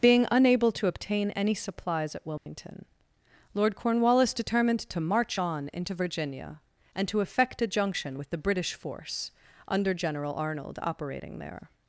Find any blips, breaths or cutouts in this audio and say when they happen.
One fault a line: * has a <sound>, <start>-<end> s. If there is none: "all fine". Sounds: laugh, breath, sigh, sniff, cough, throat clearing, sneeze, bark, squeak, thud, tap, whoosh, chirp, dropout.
* has a dropout, 2.4-2.5 s